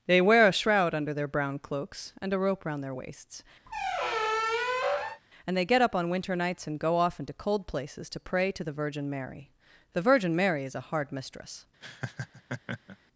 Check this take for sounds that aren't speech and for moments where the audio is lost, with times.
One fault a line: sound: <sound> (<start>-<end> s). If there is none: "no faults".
sound: squeak (3.7-5.2 s)
sound: laugh (11.8-13.0 s)